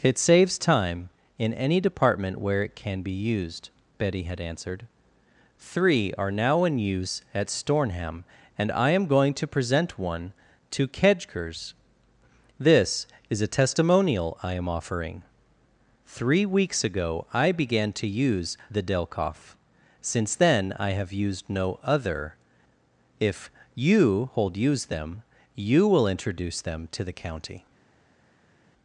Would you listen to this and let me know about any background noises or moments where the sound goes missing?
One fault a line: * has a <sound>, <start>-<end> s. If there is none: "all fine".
all fine